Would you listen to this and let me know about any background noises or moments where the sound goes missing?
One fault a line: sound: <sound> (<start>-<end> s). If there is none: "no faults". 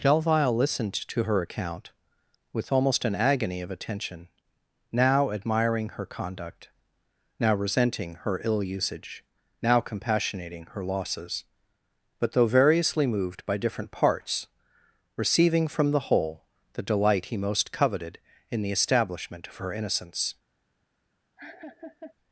sound: laugh (21.4-22.1 s)